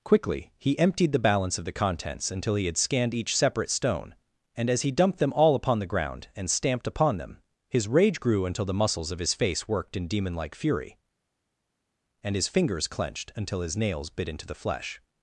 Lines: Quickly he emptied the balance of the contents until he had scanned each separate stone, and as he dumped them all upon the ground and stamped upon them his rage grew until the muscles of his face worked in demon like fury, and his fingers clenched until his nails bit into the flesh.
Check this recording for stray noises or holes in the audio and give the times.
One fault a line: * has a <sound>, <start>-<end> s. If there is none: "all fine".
all fine